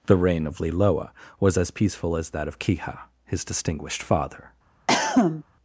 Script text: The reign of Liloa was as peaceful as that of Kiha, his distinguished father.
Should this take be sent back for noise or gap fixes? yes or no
yes